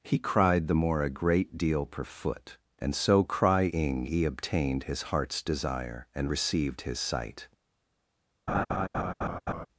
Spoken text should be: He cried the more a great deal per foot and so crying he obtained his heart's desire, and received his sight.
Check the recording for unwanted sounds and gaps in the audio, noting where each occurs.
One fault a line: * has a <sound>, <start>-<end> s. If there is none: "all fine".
* has a laugh, 8.5-9.7 s